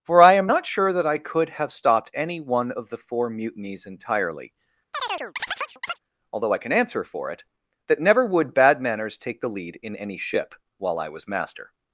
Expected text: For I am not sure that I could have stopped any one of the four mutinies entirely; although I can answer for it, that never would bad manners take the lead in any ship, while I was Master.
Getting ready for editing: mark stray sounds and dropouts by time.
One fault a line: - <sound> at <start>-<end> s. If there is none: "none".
- chirp at 4.9-6.0 s